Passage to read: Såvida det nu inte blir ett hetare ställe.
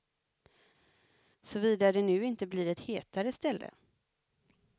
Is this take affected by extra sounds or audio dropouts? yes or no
no